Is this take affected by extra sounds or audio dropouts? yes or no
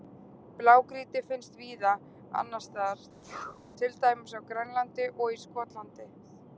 yes